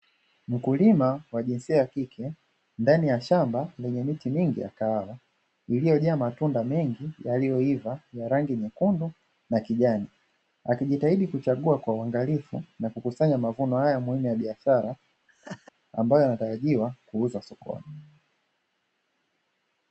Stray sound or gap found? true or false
true